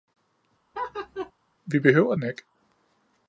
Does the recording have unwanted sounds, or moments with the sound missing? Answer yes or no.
yes